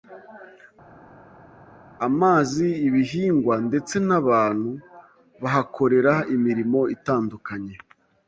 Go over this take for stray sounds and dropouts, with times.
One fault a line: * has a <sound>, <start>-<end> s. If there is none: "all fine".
all fine